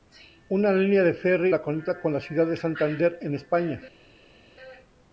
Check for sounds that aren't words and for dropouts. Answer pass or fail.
pass